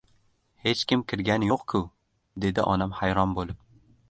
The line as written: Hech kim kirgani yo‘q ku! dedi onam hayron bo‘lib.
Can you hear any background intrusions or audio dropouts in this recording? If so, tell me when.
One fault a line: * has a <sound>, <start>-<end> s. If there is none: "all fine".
all fine